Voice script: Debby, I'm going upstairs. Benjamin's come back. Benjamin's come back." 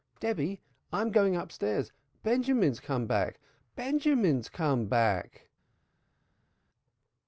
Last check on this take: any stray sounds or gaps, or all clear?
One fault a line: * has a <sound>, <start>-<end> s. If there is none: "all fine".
all fine